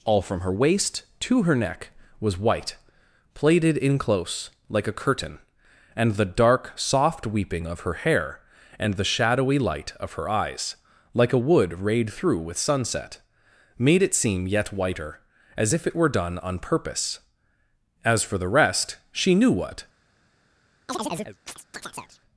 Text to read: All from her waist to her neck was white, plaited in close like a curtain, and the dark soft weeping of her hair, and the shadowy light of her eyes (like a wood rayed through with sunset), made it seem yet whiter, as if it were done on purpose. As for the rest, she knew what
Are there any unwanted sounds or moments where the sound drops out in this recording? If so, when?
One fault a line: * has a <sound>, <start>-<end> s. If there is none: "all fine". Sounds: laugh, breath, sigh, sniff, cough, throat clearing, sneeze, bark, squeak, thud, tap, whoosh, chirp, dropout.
* has a chirp, 20.9-22.2 s